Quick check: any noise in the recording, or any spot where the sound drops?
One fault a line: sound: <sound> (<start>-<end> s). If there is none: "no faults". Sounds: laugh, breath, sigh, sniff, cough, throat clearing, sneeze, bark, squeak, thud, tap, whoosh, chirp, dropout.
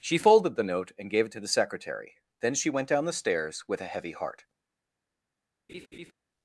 sound: laugh (5.7-6.1 s)